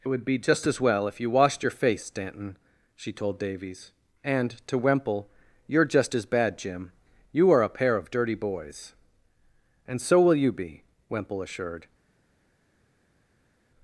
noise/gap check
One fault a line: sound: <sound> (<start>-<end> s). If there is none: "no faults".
no faults